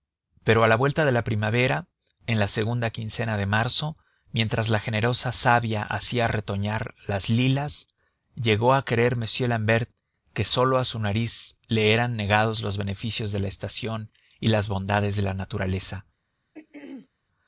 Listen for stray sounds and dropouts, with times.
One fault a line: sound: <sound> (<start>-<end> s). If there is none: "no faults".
sound: throat clearing (16.5-17.1 s)